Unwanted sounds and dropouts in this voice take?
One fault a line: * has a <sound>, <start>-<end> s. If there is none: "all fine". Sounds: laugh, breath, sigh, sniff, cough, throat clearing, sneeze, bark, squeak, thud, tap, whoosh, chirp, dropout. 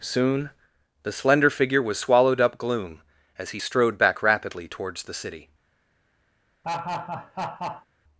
* has a laugh, 6.6-7.9 s